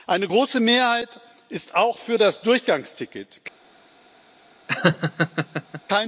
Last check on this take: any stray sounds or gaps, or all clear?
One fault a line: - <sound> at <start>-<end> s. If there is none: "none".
- laugh at 4.7-5.8 s